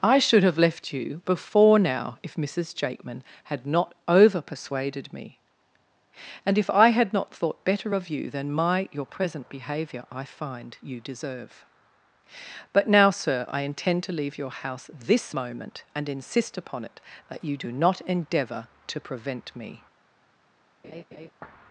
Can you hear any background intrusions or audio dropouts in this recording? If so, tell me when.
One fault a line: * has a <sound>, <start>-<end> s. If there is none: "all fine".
* has a laugh, 20.8-21.3 s